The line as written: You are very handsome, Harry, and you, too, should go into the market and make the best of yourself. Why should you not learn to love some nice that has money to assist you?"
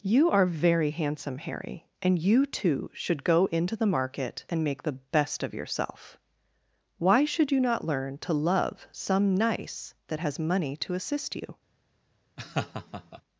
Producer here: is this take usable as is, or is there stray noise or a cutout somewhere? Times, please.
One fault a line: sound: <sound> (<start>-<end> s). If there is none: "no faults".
sound: laugh (12.4-13.2 s)